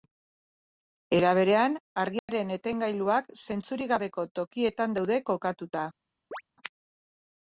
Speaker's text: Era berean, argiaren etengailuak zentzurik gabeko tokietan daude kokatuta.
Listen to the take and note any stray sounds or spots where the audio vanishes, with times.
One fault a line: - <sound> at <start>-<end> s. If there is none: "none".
- dropout at 2.2-2.3 s
- chirp at 6.3-6.4 s